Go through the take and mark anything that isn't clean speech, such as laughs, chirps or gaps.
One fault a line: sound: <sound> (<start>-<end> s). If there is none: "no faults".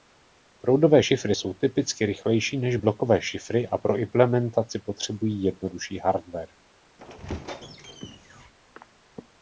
sound: squeak (7.0-8.5 s)